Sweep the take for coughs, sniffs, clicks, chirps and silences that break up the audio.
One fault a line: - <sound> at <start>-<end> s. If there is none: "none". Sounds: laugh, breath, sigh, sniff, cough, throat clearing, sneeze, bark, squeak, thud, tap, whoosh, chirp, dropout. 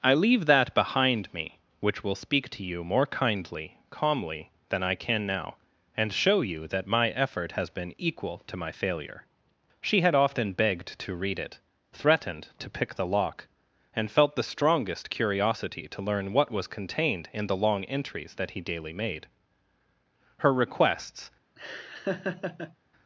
- laugh at 21.6-22.8 s